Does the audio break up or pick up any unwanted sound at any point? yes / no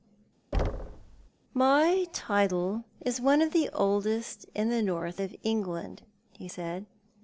yes